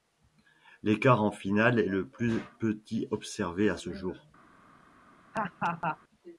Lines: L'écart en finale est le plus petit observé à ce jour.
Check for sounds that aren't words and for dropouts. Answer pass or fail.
fail